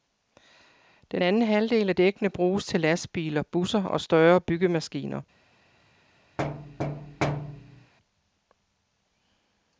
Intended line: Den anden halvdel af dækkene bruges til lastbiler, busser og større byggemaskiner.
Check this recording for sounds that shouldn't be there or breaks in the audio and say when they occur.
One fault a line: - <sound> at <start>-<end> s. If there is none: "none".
- thud at 6.4-7.9 s